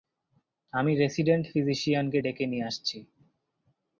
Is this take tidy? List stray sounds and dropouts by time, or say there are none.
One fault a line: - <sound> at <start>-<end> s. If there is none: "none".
none